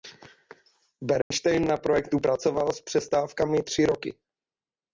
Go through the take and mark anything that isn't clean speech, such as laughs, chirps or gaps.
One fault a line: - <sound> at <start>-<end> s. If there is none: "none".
- dropout at 1.2-1.3 s